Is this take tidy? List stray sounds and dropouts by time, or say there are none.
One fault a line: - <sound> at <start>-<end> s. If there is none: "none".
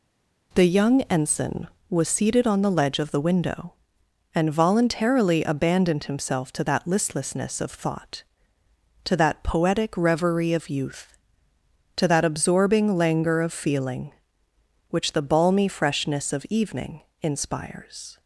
none